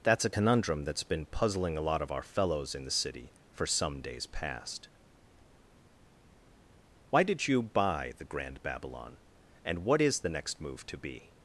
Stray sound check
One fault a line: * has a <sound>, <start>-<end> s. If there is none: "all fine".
all fine